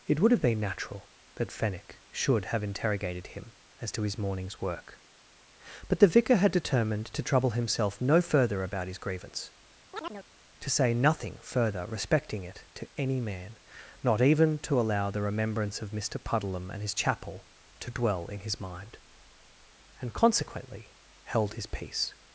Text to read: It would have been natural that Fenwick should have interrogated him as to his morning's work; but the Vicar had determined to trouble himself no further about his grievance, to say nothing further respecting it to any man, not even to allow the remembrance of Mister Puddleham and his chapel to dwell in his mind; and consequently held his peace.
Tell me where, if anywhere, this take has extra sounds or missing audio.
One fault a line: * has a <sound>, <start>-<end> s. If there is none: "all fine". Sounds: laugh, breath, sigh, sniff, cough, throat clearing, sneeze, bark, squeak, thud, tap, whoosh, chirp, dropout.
* has a chirp, 9.9-10.3 s